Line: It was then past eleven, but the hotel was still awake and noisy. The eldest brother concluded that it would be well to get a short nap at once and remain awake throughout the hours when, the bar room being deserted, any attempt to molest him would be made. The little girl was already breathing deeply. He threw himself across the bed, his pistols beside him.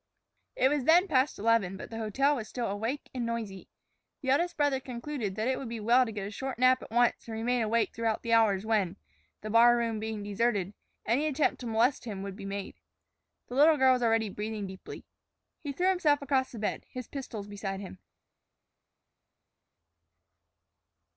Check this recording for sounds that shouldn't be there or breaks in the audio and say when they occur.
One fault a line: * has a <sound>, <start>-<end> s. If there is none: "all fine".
all fine